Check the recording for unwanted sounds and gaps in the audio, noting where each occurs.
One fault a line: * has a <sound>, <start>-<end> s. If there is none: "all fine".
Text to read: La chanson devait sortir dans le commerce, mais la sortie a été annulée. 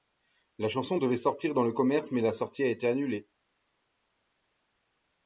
all fine